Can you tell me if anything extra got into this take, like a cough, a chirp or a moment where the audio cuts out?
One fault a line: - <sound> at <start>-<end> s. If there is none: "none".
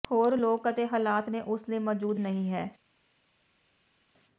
none